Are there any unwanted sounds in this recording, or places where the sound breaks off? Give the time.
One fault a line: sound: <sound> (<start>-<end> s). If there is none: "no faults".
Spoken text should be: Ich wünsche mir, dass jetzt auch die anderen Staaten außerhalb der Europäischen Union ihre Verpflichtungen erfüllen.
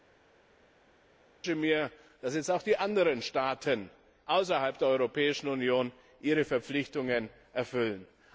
no faults